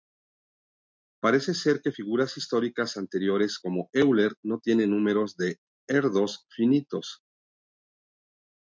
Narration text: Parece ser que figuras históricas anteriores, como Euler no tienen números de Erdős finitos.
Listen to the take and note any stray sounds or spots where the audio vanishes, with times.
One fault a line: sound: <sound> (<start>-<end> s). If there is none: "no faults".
no faults